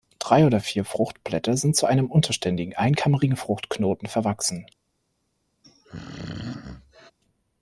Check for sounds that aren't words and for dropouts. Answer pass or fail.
fail